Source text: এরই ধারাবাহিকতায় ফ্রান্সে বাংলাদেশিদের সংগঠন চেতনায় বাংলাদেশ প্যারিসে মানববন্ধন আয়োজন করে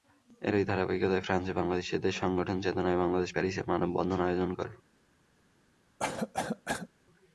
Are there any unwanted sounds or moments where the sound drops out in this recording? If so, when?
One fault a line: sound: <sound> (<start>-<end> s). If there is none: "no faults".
sound: cough (6.0-6.9 s)